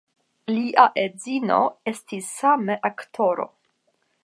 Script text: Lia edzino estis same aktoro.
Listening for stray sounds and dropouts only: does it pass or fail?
pass